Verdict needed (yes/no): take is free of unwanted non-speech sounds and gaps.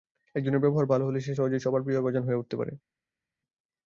yes